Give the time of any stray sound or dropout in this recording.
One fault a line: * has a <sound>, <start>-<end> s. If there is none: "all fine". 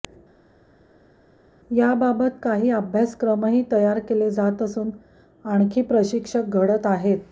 all fine